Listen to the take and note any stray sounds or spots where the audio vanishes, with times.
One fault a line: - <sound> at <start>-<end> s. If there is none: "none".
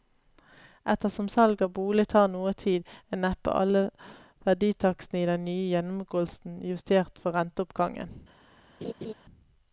- laugh at 8.8-9.1 s